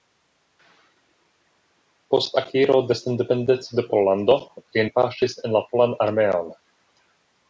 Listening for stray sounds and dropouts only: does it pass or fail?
pass